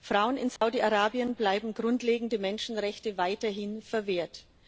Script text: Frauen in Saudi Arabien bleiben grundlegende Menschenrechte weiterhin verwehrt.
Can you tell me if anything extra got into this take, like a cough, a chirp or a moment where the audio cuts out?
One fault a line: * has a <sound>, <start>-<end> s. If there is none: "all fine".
* has a dropout, 0.6-0.6 s